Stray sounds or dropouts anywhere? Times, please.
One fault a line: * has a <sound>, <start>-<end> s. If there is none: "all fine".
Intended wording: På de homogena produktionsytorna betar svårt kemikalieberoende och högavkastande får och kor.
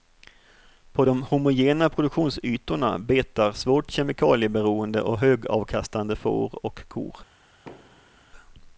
* has a thud, 7.7-8.3 s